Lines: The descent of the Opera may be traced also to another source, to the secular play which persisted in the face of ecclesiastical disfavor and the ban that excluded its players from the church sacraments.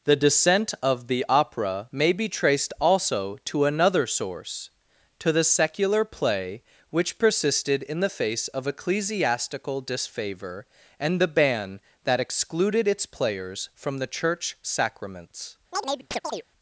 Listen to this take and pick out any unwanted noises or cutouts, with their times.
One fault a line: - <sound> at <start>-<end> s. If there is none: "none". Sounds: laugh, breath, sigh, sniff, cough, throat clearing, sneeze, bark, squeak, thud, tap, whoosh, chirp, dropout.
- chirp at 15.7-16.4 s